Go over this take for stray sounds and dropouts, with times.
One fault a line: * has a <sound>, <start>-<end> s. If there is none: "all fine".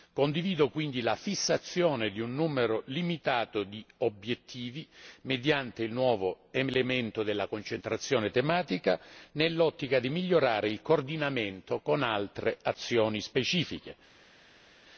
all fine